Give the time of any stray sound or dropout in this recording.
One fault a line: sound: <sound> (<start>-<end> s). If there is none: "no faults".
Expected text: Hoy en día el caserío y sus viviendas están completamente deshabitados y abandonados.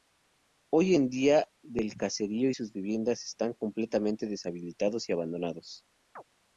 sound: chirp (6.2-6.2 s)